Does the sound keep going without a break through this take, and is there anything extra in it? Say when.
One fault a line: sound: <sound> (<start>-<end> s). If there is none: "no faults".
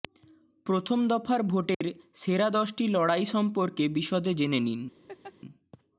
sound: dropout (1.7-1.8 s)
sound: laugh (5.1-5.3 s)